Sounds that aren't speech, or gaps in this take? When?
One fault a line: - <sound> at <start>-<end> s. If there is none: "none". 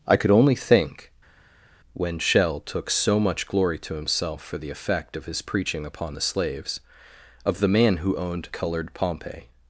none